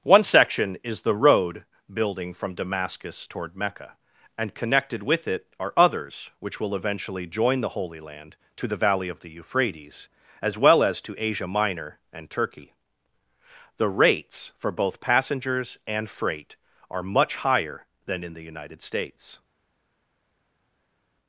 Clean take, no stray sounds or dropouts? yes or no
yes